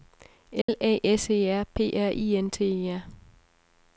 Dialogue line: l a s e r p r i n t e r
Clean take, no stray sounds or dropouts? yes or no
no